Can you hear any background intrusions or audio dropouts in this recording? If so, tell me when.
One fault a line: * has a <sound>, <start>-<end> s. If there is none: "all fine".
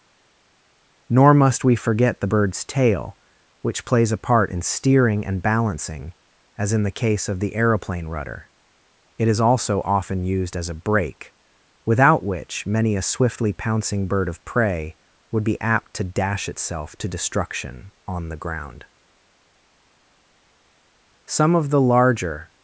all fine